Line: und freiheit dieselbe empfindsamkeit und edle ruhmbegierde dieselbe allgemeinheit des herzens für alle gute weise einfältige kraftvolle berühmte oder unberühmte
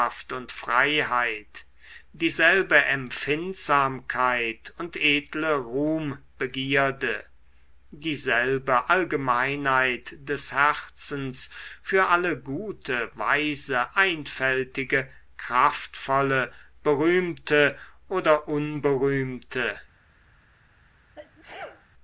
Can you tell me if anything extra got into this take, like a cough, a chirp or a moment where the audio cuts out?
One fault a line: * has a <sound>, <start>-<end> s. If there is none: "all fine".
* has a sneeze, 21.1-21.9 s